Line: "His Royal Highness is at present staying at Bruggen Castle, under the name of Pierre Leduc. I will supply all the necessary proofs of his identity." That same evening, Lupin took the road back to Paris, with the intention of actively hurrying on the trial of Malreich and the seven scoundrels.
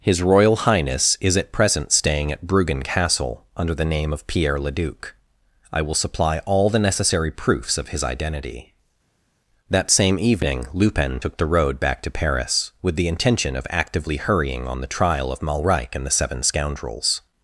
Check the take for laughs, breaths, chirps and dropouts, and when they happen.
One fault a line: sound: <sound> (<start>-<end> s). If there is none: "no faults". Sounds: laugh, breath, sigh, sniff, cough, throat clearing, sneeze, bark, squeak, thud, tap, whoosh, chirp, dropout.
no faults